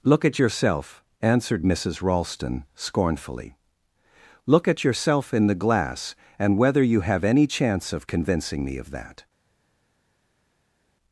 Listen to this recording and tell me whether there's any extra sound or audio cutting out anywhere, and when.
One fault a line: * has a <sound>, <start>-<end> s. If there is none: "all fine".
all fine